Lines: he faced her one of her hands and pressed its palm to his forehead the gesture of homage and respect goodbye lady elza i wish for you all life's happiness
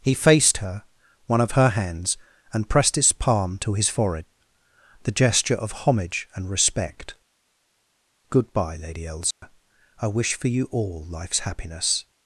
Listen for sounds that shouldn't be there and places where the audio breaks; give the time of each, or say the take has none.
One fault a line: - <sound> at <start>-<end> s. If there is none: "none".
- dropout at 9.3-9.4 s